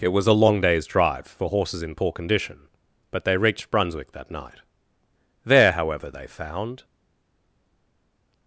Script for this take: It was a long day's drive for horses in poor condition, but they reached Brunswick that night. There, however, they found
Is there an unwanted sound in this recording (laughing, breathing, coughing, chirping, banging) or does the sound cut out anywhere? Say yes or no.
no